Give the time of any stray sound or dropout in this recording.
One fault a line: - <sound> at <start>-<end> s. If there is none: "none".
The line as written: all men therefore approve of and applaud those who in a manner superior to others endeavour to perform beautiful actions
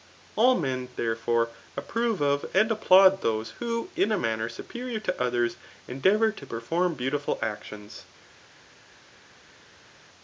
none